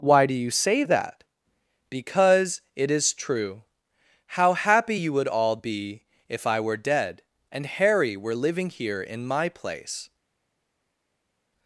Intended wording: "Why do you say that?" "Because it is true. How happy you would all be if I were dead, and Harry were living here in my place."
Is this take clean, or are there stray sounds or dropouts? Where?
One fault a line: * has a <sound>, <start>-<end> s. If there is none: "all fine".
all fine